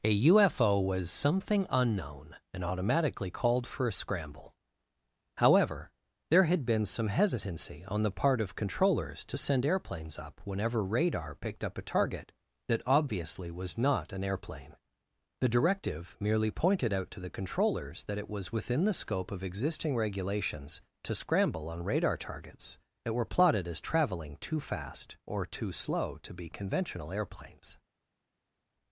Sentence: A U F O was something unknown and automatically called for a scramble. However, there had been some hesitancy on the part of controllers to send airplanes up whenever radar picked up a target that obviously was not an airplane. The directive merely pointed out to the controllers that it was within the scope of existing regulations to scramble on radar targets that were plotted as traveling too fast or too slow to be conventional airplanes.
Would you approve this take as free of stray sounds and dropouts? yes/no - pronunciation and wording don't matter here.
yes